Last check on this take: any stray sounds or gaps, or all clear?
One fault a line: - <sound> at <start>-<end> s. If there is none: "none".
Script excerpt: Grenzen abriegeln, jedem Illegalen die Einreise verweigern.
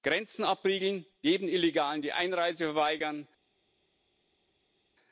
none